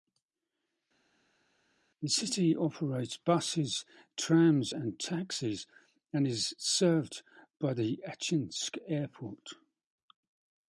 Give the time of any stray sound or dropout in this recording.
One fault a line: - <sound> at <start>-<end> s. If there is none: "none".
none